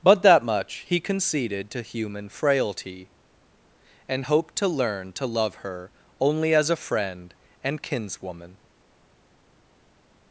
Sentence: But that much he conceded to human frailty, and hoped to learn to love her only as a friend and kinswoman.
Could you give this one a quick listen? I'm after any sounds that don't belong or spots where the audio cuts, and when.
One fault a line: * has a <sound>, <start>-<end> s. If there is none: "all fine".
all fine